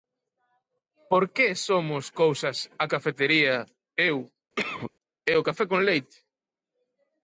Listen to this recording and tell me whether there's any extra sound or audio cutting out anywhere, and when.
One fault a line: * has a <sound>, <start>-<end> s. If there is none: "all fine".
* has a cough, 4.6-4.9 s